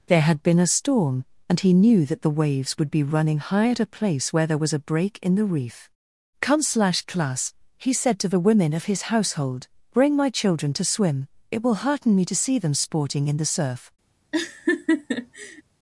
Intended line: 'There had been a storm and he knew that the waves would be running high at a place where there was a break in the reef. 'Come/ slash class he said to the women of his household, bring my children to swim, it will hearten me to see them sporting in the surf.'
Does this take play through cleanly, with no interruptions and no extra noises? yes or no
no